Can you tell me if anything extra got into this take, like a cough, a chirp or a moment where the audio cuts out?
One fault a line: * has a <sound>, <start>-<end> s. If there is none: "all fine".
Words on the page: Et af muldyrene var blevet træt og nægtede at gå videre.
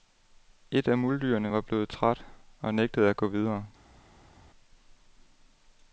all fine